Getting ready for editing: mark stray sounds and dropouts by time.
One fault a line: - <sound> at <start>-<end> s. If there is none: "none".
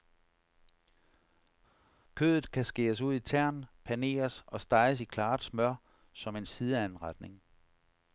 none